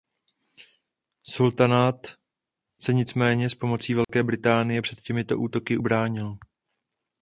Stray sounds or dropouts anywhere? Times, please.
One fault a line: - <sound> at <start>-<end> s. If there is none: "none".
- dropout at 4.0-4.1 s